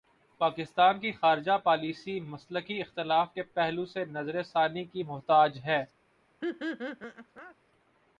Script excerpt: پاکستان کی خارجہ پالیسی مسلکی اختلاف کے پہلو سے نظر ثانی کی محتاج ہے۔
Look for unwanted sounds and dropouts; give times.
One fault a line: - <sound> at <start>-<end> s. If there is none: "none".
- laugh at 6.4-7.6 s